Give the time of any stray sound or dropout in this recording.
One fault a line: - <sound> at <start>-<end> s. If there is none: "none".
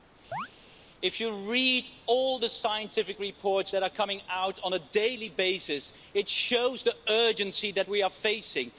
- chirp at 0.3-0.5 s